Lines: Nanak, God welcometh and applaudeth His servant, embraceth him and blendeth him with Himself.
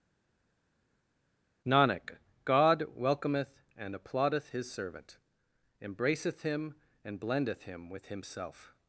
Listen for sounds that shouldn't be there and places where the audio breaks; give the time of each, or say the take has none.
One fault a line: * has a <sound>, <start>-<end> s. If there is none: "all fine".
all fine